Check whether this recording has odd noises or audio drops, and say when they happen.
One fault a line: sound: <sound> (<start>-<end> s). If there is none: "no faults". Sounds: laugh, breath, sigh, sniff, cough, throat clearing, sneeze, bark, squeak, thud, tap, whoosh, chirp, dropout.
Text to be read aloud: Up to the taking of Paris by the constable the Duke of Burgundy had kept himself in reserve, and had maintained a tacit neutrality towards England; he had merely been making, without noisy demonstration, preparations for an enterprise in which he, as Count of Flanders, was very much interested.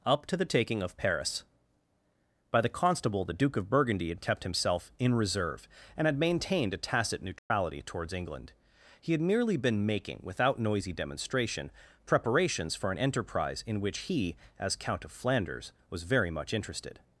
sound: dropout (7.4-7.5 s)